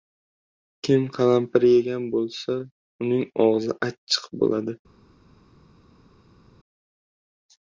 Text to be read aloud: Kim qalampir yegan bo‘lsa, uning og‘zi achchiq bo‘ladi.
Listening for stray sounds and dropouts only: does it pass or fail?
pass